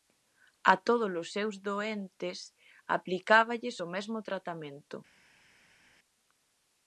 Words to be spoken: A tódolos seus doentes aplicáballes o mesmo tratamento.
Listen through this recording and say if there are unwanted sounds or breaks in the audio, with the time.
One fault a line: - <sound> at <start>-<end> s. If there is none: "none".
none